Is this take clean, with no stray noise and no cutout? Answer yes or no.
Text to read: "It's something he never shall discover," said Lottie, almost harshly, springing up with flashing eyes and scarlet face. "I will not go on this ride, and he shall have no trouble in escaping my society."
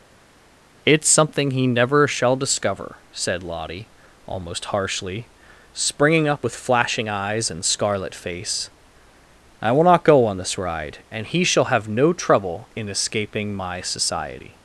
yes